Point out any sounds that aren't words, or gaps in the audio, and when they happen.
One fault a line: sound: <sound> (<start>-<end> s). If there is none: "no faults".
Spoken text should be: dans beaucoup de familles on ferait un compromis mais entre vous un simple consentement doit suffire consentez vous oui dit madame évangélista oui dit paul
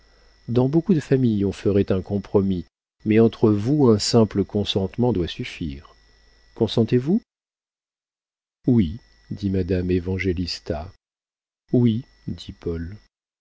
no faults